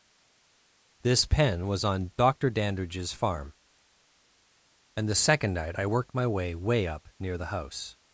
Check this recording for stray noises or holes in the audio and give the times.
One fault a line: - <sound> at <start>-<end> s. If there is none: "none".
none